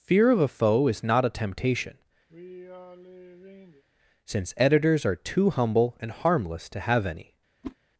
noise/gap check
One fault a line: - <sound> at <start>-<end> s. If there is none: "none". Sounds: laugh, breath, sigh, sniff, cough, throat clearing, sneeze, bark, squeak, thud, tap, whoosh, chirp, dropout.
- sigh at 2.3-3.8 s
- whoosh at 7.6-7.8 s